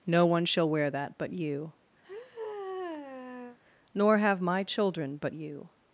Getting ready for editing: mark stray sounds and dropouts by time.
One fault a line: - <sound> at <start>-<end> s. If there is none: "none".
- sigh at 2.0-3.6 s